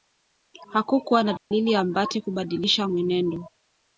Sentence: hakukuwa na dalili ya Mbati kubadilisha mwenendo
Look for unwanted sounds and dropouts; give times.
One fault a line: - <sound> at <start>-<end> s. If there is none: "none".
- dropout at 1.4-1.5 s